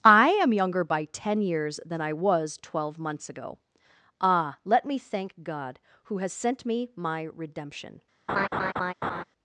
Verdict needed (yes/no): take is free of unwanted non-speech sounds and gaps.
no